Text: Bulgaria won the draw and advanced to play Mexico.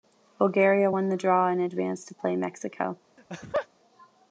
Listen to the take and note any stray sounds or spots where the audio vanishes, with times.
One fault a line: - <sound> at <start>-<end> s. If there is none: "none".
- laugh at 3.2-3.7 s